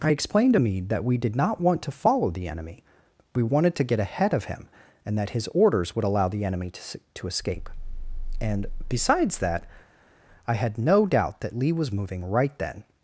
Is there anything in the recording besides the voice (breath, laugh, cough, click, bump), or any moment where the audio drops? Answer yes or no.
no